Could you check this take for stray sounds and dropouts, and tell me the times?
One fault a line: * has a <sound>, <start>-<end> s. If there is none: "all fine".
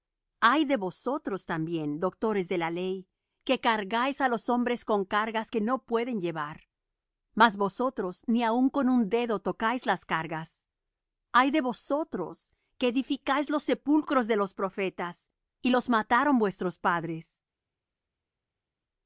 all fine